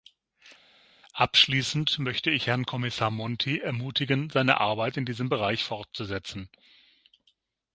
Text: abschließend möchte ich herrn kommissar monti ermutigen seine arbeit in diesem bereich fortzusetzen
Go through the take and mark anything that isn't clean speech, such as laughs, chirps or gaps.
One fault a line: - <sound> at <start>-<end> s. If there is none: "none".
none